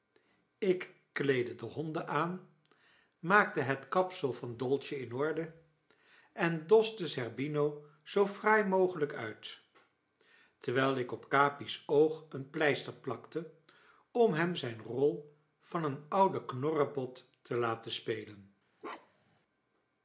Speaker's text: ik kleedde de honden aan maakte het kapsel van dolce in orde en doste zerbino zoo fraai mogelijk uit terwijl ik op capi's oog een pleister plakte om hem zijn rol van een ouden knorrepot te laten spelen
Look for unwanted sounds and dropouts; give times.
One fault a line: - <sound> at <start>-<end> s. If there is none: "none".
- bark at 18.8-19.4 s